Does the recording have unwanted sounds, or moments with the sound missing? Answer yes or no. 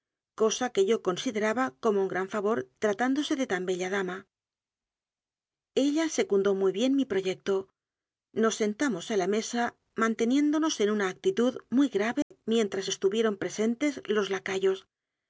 yes